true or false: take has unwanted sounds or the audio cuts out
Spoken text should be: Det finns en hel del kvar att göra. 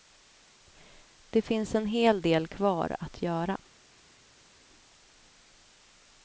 false